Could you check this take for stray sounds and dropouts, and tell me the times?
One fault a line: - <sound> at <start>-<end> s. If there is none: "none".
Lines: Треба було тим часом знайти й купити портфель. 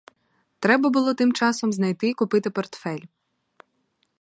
none